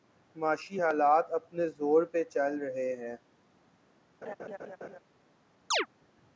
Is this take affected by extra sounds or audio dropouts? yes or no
yes